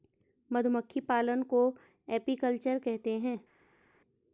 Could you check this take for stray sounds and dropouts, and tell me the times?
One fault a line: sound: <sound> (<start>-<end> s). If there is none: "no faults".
no faults